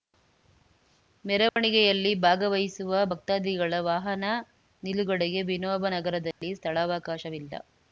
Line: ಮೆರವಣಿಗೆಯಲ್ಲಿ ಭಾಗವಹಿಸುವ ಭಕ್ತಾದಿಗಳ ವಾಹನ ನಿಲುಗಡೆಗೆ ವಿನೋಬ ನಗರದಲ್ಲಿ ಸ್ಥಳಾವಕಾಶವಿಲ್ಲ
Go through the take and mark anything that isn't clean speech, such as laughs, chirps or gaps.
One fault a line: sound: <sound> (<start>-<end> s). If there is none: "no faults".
sound: dropout (1.5-1.6 s)
sound: dropout (6.3-6.4 s)